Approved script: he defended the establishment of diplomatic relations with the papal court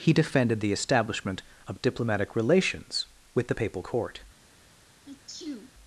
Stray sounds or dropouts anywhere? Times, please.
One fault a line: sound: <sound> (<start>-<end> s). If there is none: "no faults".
sound: sneeze (5.1-5.7 s)